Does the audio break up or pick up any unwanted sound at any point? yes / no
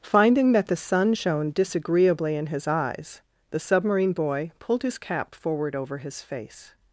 no